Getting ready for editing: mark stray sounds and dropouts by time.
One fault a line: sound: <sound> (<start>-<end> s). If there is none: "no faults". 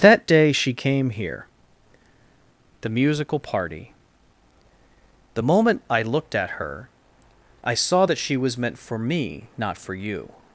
no faults